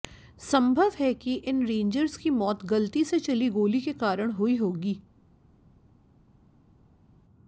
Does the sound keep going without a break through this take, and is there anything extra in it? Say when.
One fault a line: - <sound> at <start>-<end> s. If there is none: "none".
none